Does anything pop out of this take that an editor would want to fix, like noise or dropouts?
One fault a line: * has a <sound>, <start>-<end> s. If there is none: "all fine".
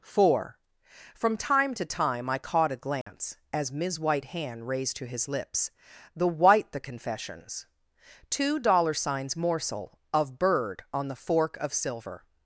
* has a dropout, 3.0-3.1 s